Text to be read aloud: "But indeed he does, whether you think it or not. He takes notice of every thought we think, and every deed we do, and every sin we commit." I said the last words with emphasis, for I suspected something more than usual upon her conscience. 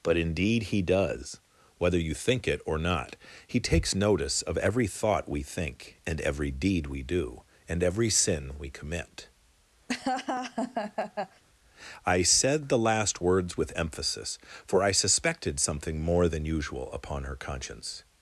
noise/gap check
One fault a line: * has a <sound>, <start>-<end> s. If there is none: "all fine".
* has a laugh, 9.9-11.4 s